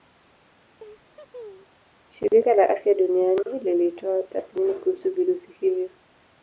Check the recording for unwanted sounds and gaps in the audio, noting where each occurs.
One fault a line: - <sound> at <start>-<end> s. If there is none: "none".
- laugh at 0.8-1.8 s